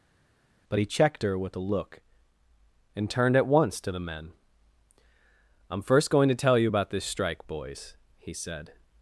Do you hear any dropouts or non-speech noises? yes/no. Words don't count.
no